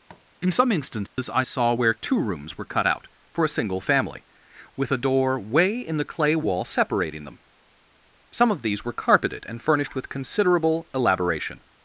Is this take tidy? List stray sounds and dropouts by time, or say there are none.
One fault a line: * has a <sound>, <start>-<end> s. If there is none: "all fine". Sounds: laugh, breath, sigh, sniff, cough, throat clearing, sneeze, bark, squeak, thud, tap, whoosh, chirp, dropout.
* has a tap, 0.1-0.3 s
* has a dropout, 1.1-1.2 s